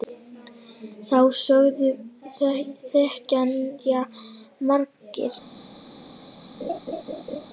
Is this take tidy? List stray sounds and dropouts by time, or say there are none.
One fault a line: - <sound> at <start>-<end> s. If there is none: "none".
- laugh at 6.6-7.5 s